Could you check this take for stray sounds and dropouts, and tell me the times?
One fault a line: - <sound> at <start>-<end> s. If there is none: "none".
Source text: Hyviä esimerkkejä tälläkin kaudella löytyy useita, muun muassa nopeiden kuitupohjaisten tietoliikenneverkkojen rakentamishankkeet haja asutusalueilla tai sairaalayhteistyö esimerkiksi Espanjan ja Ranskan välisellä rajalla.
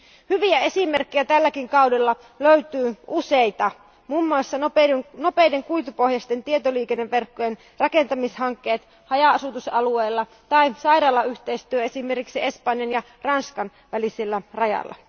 none